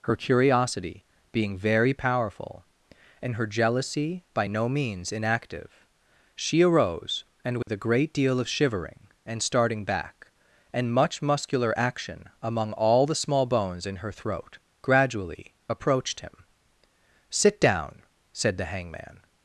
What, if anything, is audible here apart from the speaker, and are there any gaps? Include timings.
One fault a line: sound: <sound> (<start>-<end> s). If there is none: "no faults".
sound: dropout (7.6-7.7 s)